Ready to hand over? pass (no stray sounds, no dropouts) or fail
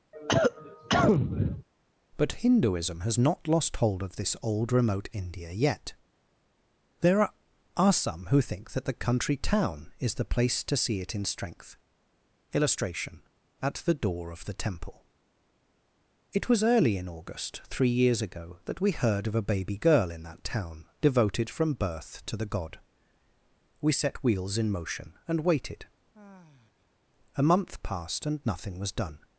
fail